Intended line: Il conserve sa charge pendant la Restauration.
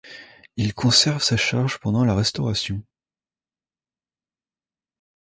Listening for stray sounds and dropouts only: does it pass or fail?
pass